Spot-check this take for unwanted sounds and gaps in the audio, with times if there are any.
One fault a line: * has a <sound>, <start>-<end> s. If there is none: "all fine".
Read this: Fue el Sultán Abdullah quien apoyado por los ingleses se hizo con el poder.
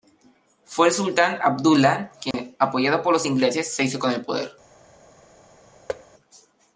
* has a dropout, 2.3-2.3 s
* has a thud, 5.9-6.1 s